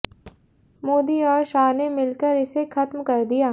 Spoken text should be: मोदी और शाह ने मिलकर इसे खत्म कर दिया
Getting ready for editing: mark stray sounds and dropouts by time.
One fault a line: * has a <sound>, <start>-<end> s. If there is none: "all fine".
* has a thud, 0.3-0.4 s